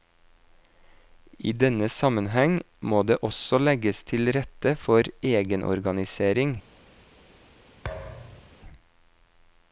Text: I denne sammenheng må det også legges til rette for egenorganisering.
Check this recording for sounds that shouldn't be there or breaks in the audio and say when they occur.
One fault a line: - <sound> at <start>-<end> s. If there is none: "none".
- thud at 7.8-8.6 s